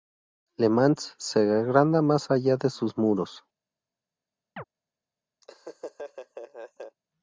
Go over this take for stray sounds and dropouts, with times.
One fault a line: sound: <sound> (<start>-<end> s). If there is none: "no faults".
sound: chirp (4.6-4.6 s)
sound: laugh (5.4-7.0 s)